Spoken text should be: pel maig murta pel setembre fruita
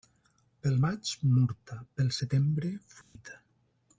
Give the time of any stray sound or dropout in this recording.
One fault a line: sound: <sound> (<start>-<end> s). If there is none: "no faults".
sound: dropout (3.0-3.2 s)